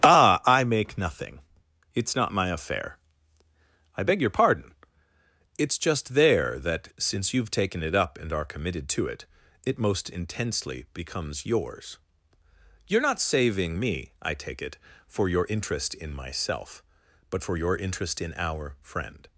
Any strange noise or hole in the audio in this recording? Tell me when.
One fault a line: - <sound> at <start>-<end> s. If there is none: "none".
none